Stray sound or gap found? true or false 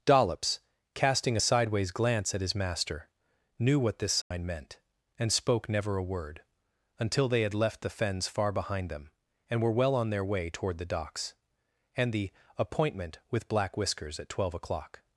true